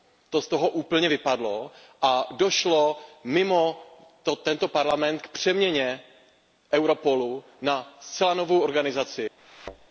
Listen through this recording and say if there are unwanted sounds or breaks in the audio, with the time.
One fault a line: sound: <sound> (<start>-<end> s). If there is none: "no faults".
sound: thud (9.4-9.9 s)